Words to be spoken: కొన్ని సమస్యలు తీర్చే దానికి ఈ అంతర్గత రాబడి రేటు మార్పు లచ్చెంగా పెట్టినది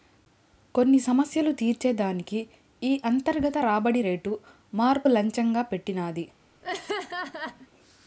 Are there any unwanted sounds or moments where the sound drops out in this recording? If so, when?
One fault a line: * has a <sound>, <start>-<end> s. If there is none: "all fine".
* has a laugh, 6.6-7.7 s